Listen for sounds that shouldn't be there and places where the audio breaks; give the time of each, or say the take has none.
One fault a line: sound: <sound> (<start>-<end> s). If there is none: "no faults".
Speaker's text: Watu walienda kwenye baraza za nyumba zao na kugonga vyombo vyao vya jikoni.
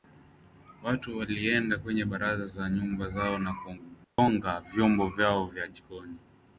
sound: dropout (4.0-4.2 s)